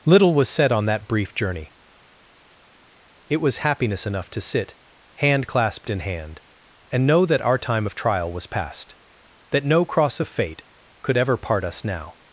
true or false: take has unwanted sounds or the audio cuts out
false